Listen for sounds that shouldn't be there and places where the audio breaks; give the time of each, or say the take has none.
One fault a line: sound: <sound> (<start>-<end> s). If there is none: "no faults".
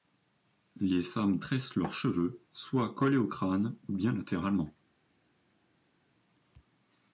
no faults